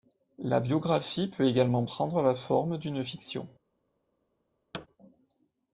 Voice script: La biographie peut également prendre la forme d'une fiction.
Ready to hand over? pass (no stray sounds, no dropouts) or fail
fail